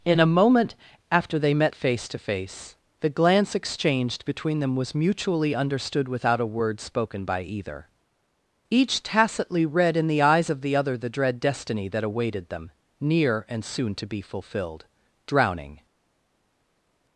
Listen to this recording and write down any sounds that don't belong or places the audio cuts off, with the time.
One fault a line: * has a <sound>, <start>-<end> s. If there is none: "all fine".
all fine